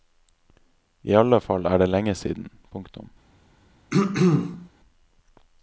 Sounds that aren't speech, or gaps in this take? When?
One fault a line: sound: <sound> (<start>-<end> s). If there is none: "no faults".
sound: throat clearing (3.9-4.7 s)